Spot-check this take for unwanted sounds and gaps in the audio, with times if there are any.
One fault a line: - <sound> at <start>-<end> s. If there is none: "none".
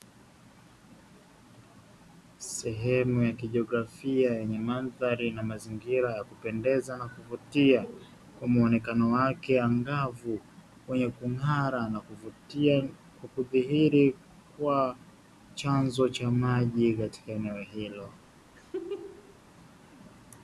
- laugh at 18.6-19.4 s